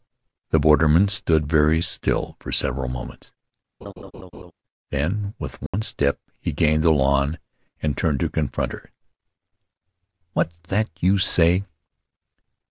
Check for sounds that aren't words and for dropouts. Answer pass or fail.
fail